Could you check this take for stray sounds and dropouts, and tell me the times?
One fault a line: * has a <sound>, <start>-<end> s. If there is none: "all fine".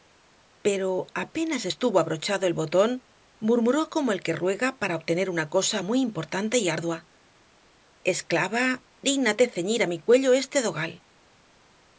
all fine